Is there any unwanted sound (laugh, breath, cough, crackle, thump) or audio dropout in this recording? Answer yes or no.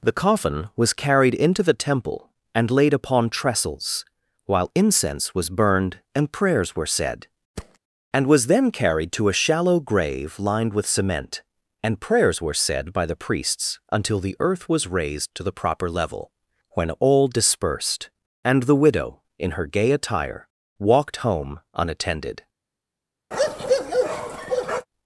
yes